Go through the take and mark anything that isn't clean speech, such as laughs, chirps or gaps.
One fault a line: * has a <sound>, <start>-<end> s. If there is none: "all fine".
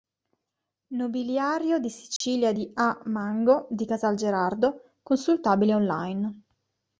* has a dropout, 2.2-2.2 s